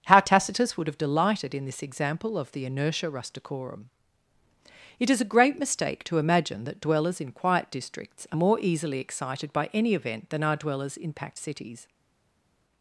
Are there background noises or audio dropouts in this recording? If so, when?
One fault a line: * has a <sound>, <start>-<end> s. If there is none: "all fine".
all fine